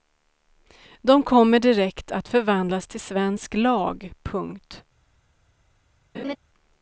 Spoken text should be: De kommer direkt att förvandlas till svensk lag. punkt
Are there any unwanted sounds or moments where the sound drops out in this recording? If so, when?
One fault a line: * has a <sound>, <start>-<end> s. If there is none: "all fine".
* has a laugh, 6.1-6.4 s